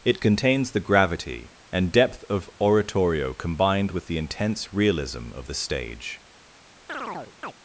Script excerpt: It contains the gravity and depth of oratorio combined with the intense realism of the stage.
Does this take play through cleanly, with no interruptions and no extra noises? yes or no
no